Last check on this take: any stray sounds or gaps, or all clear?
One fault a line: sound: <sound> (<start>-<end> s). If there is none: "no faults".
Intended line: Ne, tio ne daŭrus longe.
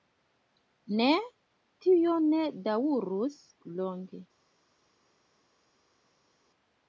no faults